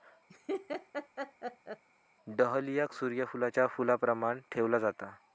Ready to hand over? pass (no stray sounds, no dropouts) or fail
fail